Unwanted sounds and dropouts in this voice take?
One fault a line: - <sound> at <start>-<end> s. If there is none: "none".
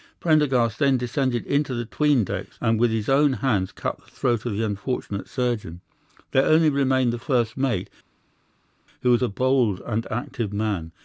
none